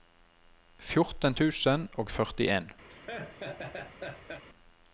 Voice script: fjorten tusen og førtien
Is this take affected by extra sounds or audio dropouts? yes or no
yes